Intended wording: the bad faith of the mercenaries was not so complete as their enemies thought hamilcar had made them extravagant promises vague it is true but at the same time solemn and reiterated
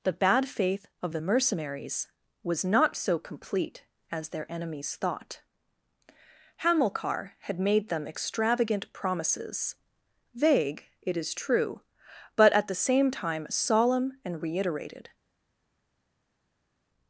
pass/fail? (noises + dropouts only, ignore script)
pass